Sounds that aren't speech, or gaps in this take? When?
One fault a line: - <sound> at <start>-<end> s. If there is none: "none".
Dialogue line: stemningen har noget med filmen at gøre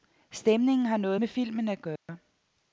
- dropout at 2.0-2.1 s